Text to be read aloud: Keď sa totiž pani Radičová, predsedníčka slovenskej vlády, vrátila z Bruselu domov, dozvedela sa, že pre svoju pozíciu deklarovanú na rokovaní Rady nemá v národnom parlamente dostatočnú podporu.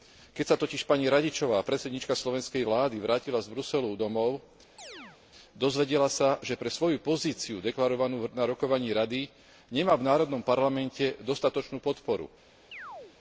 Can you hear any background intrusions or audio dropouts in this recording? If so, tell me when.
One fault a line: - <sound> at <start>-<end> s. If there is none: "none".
- chirp at 4.8-5.2 s
- chirp at 12.7-13.2 s